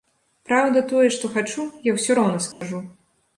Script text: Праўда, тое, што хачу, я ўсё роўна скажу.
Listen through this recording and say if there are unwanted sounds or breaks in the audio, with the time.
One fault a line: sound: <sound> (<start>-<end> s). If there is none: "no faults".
sound: dropout (2.5-2.6 s)